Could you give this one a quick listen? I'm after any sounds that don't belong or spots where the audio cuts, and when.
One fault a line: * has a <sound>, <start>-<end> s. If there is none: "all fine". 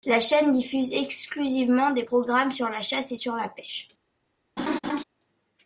* has a laugh, 4.6-5.0 s